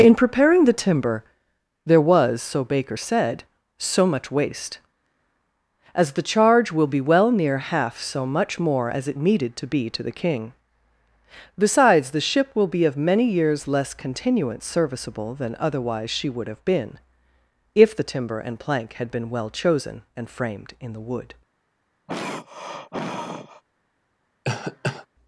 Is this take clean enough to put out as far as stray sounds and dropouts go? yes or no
no